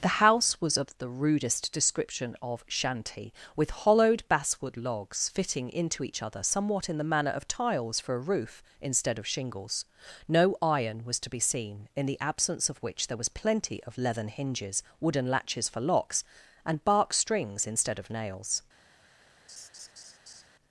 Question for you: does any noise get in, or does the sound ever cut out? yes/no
yes